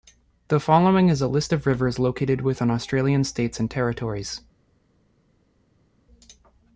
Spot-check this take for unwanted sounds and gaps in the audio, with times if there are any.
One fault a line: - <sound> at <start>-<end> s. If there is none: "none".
none